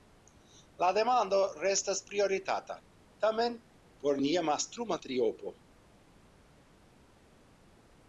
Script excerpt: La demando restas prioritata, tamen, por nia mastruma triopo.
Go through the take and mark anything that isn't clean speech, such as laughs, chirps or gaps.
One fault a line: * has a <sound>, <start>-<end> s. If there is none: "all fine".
all fine